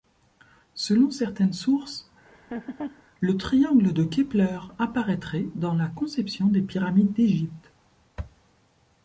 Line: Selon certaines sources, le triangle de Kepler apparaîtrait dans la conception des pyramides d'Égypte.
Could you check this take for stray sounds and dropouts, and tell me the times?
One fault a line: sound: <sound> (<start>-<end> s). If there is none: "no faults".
sound: laugh (2.2-3.0 s)